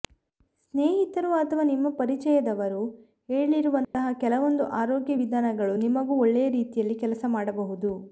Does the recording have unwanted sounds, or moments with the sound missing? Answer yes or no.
yes